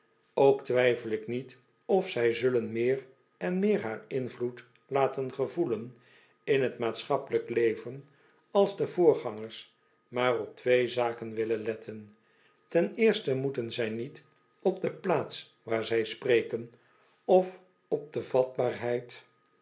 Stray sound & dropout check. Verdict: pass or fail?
pass